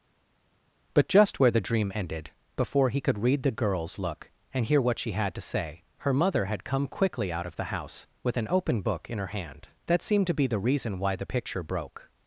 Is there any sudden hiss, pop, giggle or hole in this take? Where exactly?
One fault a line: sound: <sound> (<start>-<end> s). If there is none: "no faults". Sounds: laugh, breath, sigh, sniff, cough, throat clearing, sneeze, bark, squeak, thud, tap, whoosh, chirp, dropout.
no faults